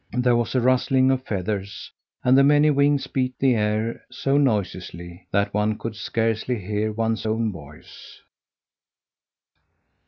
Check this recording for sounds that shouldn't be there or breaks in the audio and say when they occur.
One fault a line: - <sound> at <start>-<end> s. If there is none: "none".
none